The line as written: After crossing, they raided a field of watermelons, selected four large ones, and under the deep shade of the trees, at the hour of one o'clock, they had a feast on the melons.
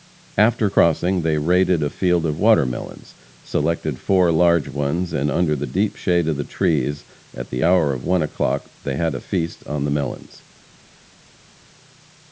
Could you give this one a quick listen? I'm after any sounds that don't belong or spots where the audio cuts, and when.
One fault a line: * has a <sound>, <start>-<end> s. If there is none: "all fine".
all fine